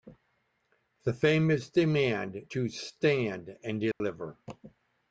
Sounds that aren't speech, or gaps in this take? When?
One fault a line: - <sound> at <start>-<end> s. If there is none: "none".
- dropout at 3.9-4.0 s